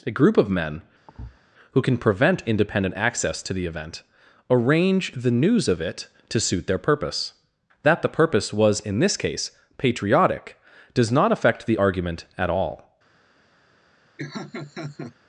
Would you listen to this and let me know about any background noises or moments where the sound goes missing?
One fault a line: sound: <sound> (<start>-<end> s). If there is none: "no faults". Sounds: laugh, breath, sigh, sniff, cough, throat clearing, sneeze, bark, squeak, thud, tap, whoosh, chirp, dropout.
sound: thud (1.1-1.4 s)
sound: laugh (14.2-15.1 s)